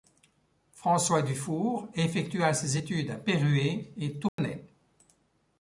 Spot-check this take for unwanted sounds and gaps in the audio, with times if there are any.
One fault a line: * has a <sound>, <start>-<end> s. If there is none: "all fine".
* has a dropout, 4.3-4.4 s